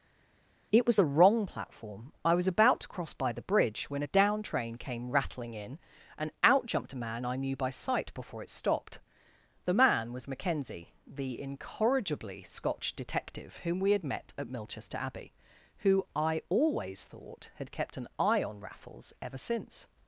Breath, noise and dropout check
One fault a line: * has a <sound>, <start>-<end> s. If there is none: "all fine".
all fine